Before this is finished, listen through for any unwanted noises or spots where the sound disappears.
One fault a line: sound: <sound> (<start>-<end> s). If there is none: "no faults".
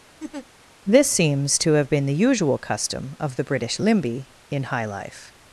sound: laugh (0.2-0.5 s)